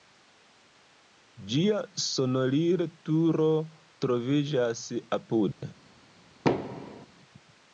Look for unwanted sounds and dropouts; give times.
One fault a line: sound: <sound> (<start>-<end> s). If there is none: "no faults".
sound: dropout (5.5-5.6 s)
sound: thud (6.4-7.1 s)